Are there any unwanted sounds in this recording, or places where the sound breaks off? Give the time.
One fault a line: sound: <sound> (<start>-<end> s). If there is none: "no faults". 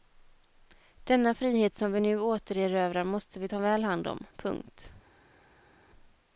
no faults